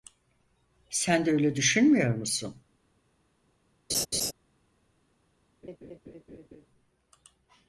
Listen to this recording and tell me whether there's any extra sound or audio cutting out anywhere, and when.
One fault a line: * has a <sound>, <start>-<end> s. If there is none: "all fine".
* has a laugh, 3.9-4.3 s
* has a laugh, 5.6-6.7 s